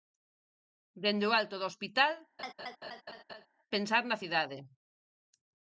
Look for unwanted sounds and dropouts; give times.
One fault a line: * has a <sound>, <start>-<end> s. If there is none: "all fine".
* has a laugh, 2.4-3.5 s